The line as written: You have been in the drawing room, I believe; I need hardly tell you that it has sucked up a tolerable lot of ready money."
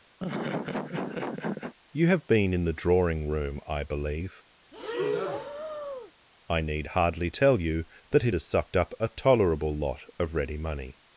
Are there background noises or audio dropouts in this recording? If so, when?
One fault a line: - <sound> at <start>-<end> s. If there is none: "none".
- laugh at 0.2-1.7 s
- breath at 4.7-6.1 s